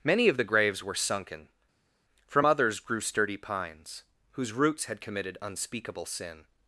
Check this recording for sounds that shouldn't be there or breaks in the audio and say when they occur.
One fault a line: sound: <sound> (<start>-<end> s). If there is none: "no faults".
no faults